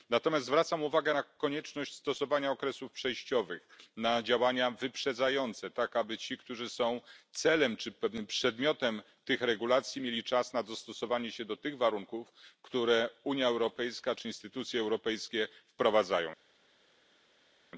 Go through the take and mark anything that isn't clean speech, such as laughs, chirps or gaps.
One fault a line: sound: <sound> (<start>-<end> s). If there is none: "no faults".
no faults